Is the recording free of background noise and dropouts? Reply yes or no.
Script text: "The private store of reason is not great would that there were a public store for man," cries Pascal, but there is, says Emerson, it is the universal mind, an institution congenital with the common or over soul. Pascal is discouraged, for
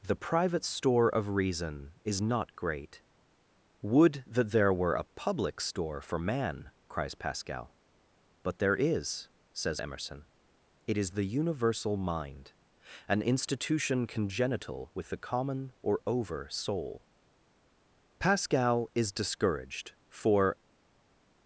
yes